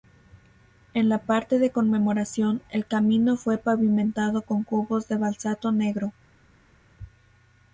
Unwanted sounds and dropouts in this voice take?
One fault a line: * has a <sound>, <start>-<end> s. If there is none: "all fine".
all fine